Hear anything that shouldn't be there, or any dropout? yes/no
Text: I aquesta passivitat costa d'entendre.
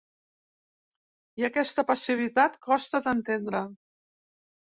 no